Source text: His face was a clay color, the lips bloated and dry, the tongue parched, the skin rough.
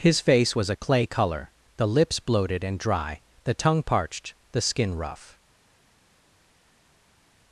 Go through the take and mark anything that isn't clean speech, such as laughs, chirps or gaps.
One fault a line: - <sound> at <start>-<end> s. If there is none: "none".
none